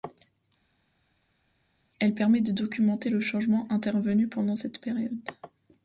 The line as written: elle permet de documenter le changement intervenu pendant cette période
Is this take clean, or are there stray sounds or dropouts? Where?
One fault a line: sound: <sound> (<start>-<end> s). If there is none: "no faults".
no faults